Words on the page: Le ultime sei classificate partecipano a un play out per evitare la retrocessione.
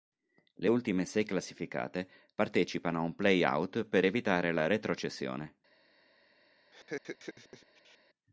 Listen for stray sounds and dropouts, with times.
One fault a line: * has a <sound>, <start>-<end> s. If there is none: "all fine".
* has a laugh, 6.7-8.0 s